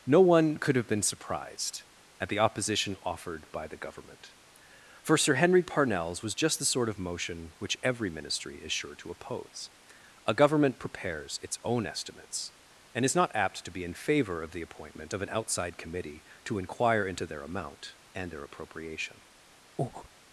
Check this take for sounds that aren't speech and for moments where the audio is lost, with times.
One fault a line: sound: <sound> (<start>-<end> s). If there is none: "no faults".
sound: breath (19.8-20.1 s)